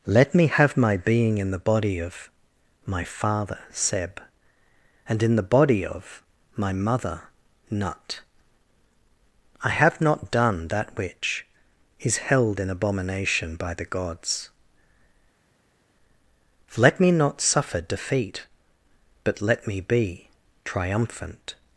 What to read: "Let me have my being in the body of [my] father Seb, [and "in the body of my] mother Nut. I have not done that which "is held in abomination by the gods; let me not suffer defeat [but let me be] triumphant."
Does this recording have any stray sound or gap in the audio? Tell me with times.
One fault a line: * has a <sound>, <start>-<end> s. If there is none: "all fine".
all fine